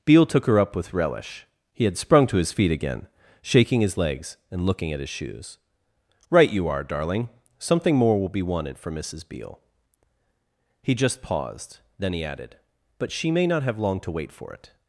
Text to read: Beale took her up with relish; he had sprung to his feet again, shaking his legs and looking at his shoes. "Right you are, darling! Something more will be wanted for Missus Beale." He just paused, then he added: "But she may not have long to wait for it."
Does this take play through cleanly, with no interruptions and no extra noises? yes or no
yes